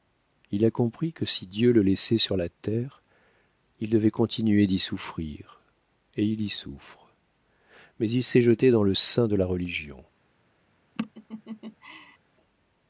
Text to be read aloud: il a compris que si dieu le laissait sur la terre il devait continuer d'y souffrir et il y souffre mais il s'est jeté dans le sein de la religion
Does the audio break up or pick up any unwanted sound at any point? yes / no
yes